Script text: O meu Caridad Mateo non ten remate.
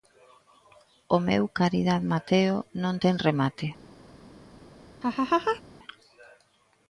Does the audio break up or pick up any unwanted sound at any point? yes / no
yes